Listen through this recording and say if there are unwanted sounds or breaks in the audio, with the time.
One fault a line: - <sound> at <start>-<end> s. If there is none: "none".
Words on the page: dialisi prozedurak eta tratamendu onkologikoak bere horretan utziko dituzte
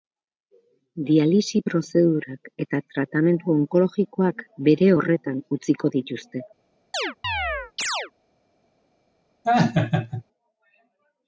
- chirp at 6.9-8.1 s
- laugh at 9.4-10.2 s